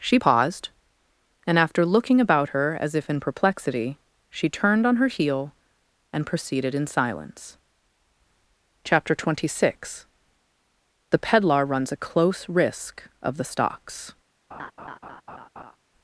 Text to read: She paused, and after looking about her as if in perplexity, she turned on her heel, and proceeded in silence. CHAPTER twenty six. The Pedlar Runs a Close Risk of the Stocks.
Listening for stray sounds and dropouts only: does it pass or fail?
fail